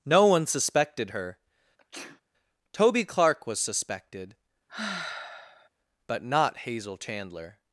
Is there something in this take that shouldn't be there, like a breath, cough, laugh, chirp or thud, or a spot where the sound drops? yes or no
yes